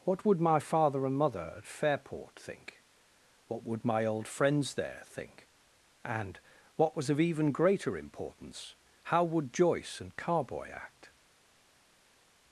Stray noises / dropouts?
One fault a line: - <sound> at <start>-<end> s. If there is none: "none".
none